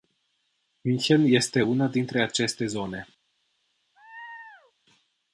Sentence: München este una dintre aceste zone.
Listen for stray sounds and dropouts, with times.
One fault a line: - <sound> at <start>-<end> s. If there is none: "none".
- laugh at 3.9-4.7 s